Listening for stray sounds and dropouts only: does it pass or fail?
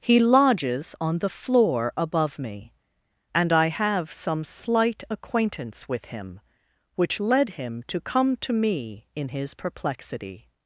pass